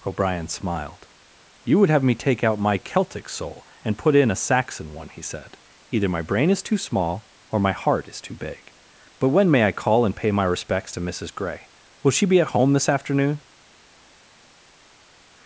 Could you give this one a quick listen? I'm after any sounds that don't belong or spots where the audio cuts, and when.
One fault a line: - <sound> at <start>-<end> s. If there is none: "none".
none